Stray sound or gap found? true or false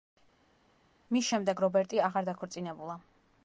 false